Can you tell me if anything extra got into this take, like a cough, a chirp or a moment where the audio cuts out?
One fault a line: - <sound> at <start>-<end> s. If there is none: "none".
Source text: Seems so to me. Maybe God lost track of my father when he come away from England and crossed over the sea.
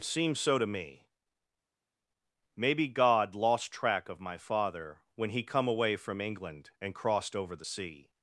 none